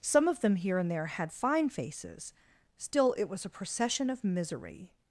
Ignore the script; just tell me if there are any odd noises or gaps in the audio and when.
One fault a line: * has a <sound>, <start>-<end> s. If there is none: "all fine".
all fine